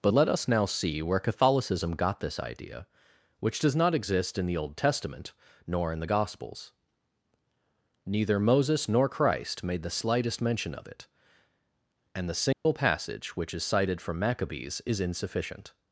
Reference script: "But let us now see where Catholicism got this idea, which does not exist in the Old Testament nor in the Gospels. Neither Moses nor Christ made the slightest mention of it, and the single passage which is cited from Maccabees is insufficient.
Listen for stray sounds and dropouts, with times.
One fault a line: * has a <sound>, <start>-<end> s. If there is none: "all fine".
* has a dropout, 12.5-12.7 s